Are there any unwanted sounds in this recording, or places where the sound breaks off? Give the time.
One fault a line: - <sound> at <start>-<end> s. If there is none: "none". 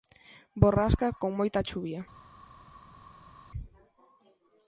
none